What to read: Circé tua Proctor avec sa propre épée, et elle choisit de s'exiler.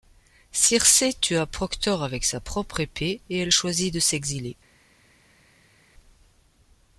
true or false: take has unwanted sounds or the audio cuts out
false